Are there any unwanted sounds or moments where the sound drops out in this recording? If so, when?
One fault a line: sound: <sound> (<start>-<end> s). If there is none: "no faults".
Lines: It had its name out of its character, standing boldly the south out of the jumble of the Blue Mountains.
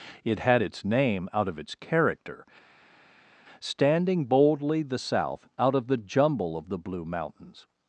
no faults